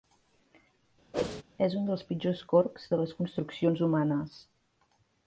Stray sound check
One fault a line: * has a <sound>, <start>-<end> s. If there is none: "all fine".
* has a whoosh, 1.1-1.4 s